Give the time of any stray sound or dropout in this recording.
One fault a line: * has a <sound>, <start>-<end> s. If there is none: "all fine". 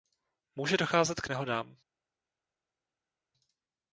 all fine